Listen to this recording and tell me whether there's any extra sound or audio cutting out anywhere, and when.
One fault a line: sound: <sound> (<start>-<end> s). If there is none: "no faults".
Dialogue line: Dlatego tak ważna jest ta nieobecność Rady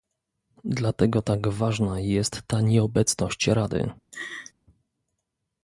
sound: laugh (4.1-4.5 s)